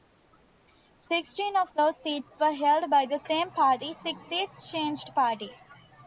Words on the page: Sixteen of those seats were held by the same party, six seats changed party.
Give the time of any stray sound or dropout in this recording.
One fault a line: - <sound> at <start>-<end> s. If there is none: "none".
none